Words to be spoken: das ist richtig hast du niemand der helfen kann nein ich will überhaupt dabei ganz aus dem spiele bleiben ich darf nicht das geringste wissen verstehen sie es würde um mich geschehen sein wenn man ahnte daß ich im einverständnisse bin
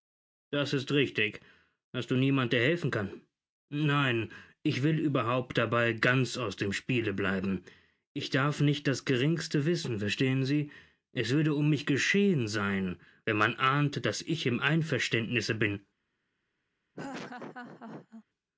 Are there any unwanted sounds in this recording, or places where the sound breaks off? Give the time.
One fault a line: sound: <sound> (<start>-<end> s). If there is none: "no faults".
sound: laugh (16.9-18.2 s)